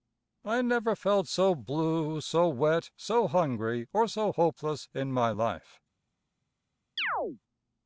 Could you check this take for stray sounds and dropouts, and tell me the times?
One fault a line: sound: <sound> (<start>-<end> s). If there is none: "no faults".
sound: chirp (7.0-7.4 s)